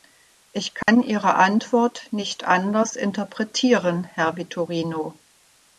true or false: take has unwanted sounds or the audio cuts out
true